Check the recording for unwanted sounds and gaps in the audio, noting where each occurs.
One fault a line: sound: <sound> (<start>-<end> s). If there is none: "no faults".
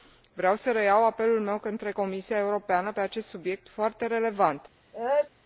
sound: sneeze (4.9-5.3 s)